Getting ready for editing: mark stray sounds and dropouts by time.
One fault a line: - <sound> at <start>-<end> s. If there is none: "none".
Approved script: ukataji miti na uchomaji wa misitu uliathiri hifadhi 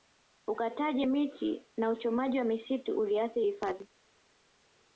none